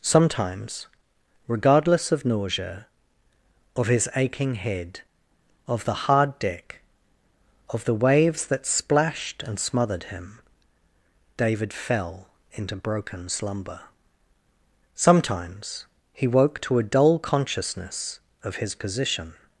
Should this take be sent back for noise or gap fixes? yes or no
no